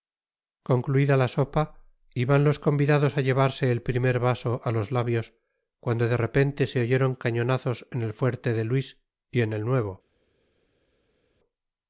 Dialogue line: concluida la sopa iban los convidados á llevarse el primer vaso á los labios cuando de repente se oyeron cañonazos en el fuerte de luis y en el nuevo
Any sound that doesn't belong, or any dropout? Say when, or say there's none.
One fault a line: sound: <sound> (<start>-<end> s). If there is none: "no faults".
no faults